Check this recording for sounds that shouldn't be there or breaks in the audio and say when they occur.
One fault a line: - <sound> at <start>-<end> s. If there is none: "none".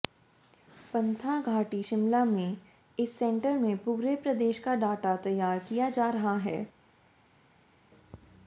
none